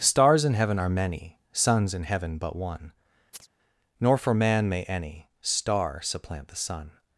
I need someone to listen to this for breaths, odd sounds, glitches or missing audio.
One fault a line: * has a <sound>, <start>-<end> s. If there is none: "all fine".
* has a chirp, 3.3-3.5 s